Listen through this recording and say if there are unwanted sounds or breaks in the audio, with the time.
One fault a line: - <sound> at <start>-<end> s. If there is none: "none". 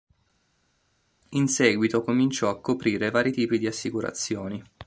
none